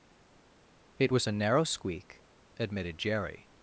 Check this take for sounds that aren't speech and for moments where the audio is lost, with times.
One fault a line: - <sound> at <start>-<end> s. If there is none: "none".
none